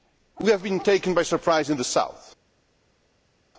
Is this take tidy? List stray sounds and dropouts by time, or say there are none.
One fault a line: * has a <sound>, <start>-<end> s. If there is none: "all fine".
all fine